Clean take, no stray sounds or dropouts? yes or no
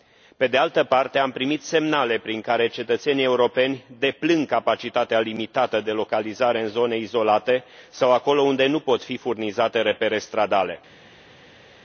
yes